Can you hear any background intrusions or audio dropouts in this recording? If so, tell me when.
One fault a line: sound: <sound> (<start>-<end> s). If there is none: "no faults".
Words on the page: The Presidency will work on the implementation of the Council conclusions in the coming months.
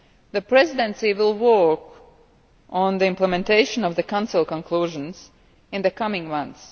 no faults